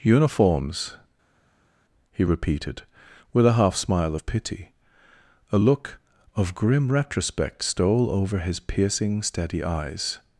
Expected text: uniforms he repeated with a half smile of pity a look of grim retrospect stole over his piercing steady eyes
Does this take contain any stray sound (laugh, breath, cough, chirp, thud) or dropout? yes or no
no